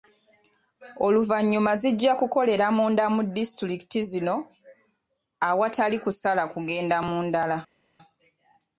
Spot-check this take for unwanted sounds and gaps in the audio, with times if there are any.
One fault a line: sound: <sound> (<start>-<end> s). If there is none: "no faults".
no faults